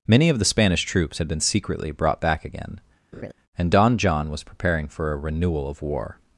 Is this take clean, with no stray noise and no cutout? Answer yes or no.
no